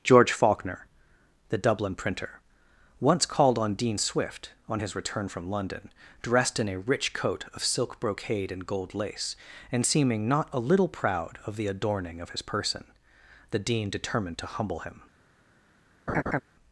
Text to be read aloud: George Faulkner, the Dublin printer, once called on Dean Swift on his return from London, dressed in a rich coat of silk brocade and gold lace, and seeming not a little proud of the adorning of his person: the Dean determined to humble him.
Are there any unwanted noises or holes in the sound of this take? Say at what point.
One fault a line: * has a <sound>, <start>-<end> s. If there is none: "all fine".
* has a laugh, 16.1-16.4 s